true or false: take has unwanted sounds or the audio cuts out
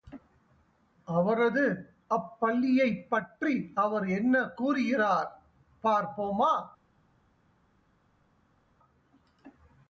false